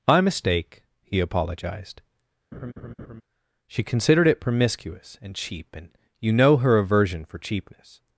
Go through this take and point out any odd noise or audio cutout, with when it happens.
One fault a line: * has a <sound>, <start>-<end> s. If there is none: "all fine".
* has a laugh, 2.5-3.2 s